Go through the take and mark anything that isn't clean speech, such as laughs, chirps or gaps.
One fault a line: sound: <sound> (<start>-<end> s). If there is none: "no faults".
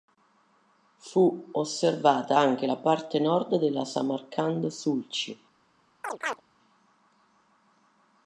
sound: chirp (6.0-6.4 s)